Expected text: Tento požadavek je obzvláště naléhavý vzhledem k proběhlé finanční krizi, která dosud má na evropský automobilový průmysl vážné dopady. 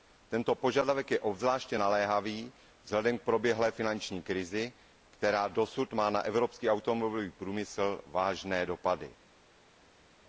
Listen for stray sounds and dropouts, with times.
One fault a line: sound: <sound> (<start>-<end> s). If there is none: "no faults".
no faults